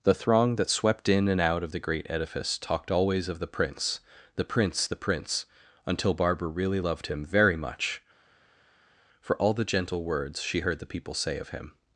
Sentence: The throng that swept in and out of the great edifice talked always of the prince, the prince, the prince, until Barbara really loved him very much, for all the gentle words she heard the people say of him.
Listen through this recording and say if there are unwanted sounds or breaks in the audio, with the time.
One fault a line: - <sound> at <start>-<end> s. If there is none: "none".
none